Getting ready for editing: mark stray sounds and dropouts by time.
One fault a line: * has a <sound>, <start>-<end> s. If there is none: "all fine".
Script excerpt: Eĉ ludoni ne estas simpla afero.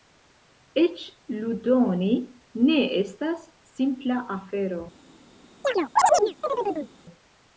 * has a chirp, 5.6-6.9 s